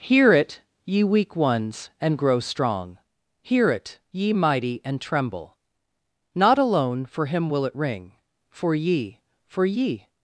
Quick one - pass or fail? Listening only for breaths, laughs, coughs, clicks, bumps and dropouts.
pass